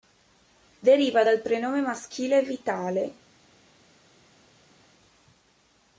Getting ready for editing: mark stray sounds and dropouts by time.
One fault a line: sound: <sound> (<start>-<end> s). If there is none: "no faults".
no faults